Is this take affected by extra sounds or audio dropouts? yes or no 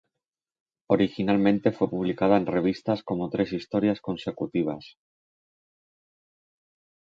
no